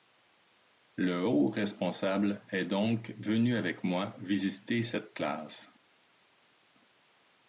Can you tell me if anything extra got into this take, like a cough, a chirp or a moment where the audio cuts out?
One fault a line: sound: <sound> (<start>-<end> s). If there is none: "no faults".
no faults